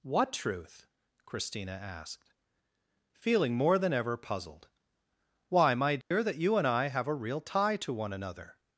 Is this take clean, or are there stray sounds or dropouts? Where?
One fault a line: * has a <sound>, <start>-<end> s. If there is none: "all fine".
* has a dropout, 6.0-6.1 s